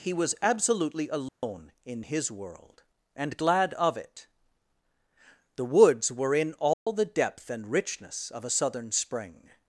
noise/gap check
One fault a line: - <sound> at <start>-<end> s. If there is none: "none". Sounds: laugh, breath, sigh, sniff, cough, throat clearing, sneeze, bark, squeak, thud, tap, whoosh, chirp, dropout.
- dropout at 1.3-1.4 s
- dropout at 6.7-6.9 s